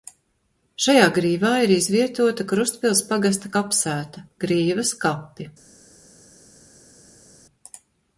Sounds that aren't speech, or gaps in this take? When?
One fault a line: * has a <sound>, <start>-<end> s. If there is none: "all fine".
all fine